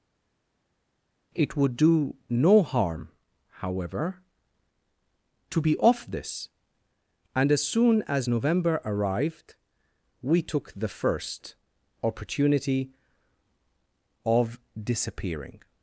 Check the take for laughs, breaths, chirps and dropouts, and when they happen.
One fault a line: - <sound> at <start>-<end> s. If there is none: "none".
none